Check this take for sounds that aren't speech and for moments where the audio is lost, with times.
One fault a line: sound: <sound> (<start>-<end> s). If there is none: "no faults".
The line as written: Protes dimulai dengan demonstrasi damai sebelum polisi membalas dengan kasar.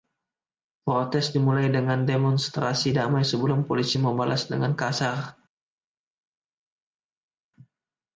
no faults